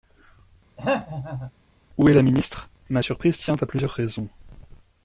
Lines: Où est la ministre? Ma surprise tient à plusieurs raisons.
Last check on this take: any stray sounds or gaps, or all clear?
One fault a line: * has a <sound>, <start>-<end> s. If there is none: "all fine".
* has a throat clearing, 0.8-1.5 s